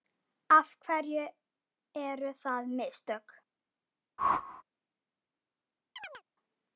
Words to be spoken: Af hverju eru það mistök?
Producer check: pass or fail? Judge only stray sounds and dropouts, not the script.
fail